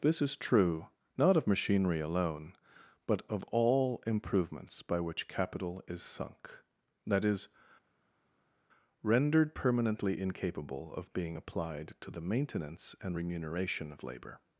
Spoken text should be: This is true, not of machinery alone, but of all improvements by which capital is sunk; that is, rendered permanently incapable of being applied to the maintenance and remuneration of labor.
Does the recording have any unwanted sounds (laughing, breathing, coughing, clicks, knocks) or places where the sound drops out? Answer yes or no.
no